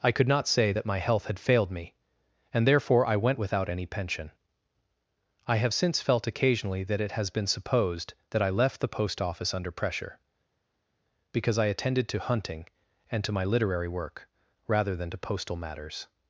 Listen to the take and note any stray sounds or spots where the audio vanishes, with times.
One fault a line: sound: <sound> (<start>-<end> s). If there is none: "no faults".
no faults